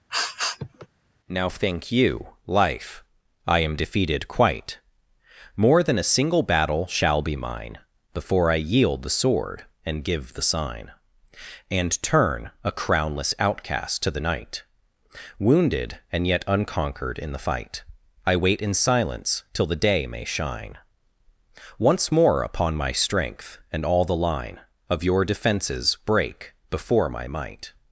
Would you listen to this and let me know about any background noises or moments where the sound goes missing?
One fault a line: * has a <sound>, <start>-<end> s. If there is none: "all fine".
* has a sniff, 0.1-0.9 s